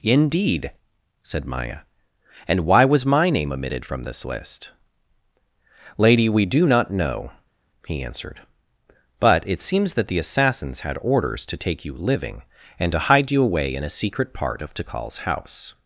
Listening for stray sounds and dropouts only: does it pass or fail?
pass